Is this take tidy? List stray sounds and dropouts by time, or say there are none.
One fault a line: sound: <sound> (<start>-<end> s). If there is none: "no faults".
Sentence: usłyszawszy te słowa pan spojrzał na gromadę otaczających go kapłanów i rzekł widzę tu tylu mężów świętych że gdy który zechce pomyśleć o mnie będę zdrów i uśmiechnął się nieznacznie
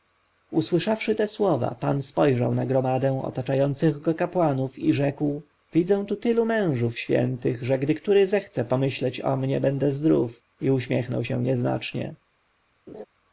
sound: laugh (12.9-13.1 s)